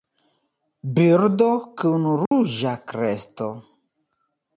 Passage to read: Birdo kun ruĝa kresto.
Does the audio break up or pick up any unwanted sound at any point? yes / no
yes